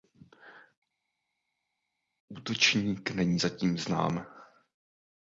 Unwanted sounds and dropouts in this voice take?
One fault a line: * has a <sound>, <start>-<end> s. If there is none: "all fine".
all fine